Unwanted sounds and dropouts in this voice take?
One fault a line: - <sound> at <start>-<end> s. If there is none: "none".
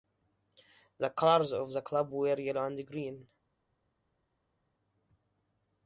none